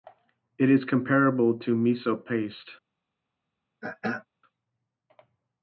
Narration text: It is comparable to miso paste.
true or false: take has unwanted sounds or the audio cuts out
true